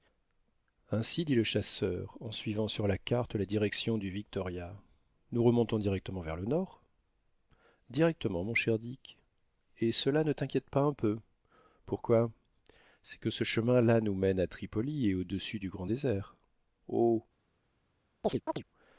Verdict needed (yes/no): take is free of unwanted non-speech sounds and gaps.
no